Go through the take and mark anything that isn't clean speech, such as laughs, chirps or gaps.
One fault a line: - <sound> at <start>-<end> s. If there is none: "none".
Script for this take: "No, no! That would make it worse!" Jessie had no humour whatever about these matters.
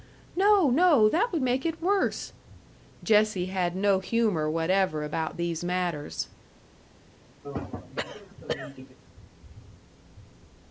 - throat clearing at 7.4-9.0 s